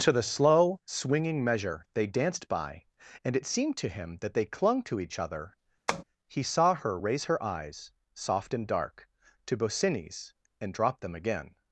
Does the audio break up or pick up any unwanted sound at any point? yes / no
yes